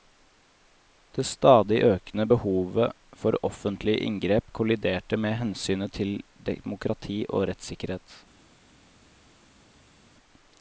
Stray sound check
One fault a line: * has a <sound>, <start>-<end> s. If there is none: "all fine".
all fine